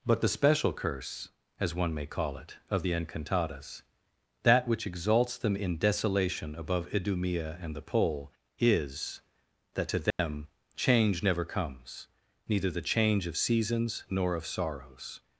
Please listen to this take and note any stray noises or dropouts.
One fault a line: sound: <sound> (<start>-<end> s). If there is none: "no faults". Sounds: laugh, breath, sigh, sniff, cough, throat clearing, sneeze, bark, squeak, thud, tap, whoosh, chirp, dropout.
sound: dropout (10.1-10.2 s)